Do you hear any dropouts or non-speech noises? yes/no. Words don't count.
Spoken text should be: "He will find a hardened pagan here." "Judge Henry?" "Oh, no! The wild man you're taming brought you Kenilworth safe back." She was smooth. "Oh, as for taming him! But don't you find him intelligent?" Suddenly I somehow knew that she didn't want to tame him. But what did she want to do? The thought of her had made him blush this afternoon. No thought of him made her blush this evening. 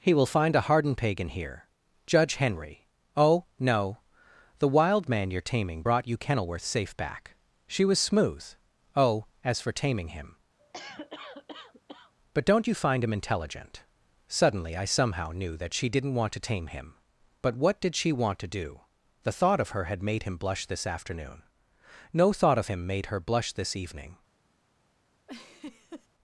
yes